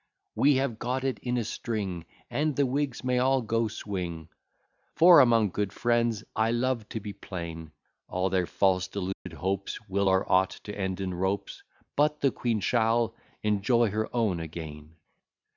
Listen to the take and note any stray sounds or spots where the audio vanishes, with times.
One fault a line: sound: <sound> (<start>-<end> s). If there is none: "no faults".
sound: dropout (9.1-9.3 s)